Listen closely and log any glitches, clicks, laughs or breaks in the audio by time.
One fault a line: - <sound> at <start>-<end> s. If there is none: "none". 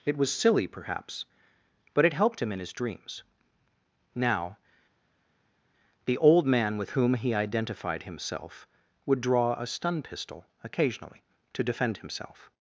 none